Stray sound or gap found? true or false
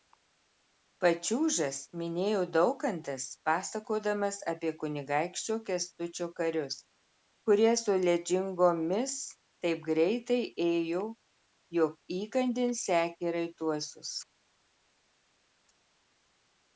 false